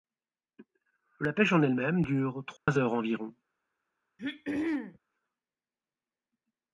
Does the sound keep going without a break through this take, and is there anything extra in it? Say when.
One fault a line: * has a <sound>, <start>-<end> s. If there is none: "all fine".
* has a dropout, 2.6-2.7 s
* has a throat clearing, 4.2-5.0 s